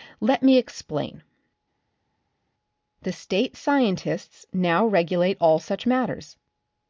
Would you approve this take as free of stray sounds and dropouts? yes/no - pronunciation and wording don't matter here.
yes